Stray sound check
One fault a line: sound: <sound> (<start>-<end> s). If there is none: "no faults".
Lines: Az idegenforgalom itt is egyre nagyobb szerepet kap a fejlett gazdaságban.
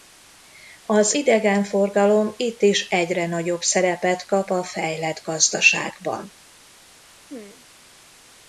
sound: throat clearing (7.3-7.7 s)